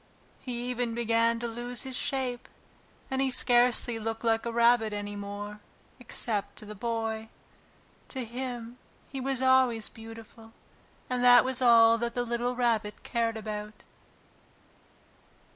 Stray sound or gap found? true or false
false